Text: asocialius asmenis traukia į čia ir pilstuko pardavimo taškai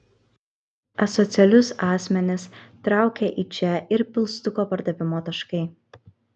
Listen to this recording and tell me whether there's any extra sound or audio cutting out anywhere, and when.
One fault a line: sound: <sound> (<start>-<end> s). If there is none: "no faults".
no faults